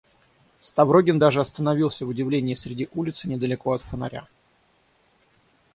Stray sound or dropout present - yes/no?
no